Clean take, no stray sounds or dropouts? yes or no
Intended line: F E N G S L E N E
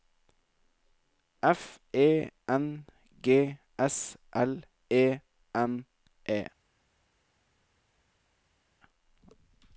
yes